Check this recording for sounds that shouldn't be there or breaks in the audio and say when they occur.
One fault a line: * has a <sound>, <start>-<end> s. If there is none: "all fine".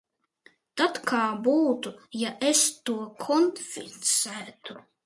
all fine